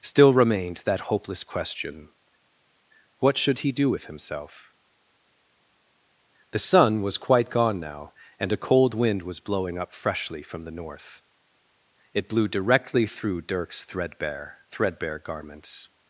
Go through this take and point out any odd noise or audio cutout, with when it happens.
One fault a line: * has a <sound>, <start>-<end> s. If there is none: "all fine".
all fine